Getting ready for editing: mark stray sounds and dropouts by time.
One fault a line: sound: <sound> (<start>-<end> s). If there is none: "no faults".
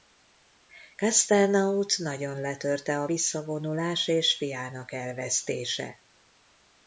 no faults